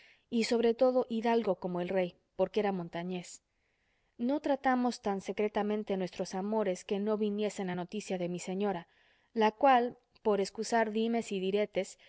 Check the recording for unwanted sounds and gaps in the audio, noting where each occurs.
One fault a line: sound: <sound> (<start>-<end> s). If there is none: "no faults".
no faults